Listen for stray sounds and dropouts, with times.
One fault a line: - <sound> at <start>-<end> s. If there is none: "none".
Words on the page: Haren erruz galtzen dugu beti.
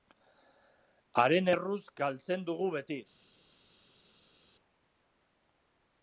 none